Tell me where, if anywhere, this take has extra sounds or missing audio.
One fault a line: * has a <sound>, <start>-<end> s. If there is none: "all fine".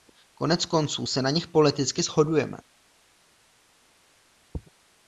all fine